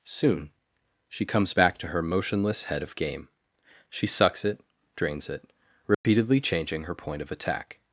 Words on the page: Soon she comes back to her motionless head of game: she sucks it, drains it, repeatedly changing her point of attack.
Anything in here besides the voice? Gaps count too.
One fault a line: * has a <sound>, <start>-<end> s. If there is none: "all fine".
* has a dropout, 5.9-6.0 s